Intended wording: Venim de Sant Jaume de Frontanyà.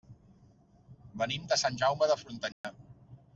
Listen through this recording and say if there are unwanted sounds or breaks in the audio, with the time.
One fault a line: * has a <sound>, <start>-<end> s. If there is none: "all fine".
* has a dropout, 2.5-2.6 s